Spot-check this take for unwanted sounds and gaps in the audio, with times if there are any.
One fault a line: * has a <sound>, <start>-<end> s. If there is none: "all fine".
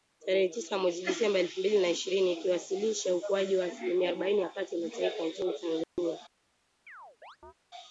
* has a dropout, 5.8-6.0 s
* has a chirp, 6.9-7.5 s